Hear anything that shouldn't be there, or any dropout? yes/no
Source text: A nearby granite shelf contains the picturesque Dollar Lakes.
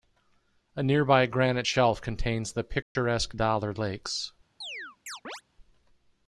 yes